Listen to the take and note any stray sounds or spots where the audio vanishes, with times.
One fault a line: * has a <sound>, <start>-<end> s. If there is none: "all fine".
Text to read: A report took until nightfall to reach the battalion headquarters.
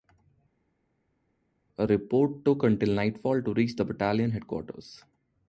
all fine